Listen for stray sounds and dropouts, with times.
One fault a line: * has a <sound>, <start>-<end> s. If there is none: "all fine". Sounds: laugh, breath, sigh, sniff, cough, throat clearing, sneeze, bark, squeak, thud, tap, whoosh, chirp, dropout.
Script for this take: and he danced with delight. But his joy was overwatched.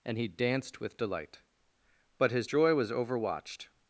all fine